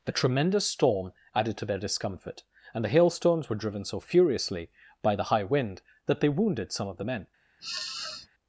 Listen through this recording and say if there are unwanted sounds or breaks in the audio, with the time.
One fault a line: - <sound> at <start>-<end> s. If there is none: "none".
- sniff at 7.6-8.3 s